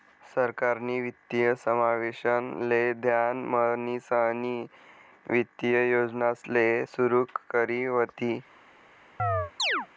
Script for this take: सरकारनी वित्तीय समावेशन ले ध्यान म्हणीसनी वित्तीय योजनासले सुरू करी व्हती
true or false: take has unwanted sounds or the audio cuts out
true